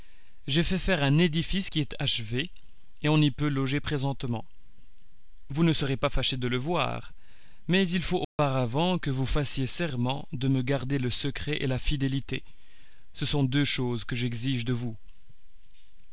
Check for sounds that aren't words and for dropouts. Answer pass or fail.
fail